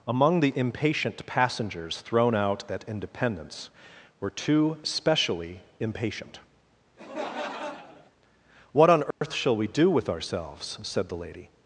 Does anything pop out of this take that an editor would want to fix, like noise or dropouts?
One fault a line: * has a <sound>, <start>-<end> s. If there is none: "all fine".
* has a laugh, 7.0-8.1 s
* has a dropout, 9.1-9.2 s